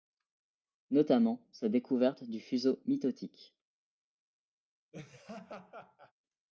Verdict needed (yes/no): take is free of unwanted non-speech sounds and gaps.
no